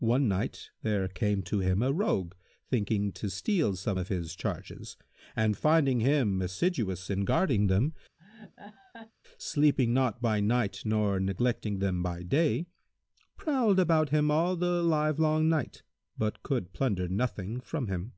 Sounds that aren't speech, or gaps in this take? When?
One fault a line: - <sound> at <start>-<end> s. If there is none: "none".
- laugh at 8.2-9.1 s